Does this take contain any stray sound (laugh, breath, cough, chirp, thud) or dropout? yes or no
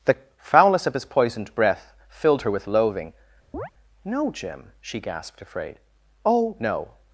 yes